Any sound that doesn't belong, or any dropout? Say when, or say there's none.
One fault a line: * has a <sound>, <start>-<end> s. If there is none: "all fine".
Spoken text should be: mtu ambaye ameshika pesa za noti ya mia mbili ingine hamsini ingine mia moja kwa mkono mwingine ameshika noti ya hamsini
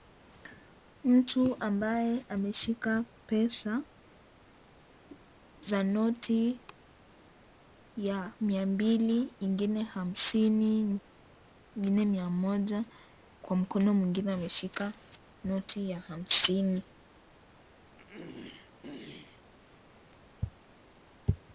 * has a throat clearing, 18.0-19.4 s